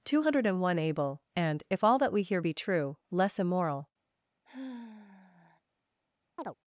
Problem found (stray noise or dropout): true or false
true